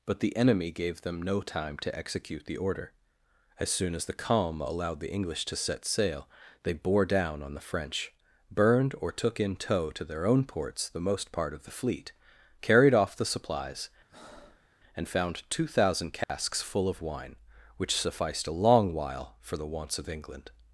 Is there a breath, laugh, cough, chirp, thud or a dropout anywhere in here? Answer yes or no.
yes